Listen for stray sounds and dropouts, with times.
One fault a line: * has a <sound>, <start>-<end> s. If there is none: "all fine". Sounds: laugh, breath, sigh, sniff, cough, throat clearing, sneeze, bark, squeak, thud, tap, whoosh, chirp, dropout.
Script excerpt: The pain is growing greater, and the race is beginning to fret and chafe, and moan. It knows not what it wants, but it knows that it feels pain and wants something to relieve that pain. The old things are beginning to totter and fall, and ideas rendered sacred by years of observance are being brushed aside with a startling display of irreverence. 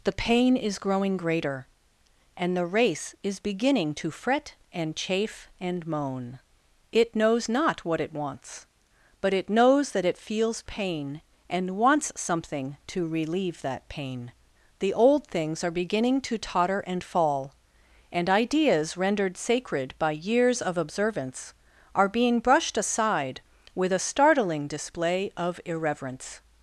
all fine